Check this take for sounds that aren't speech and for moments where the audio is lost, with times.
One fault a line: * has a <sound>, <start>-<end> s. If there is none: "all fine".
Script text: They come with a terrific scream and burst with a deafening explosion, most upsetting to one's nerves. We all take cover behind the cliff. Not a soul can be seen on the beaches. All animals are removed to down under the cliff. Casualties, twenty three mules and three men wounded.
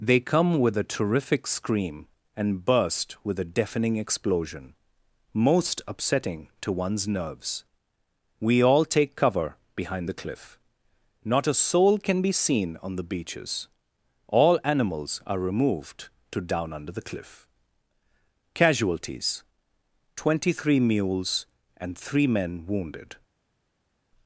all fine